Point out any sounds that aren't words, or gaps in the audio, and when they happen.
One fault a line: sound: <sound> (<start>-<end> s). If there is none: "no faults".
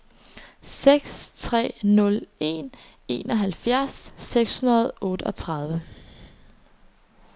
no faults